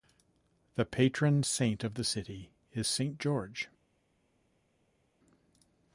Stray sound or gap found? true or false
false